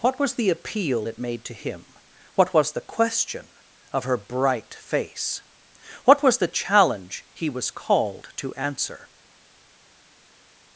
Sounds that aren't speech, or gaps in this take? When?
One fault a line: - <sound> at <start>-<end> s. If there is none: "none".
none